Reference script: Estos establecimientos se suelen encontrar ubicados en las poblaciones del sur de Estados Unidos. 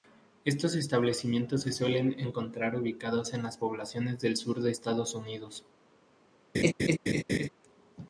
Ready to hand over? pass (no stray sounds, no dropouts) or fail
fail